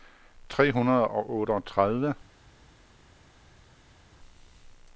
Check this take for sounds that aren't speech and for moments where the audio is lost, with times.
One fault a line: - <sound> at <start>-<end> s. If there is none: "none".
none